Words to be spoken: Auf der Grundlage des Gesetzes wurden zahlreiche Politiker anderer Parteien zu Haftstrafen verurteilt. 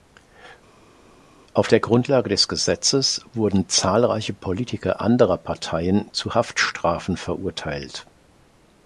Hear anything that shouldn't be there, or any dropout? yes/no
no